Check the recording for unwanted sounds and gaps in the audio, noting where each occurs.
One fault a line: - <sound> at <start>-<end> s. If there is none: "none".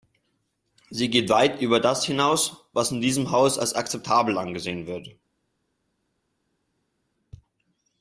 none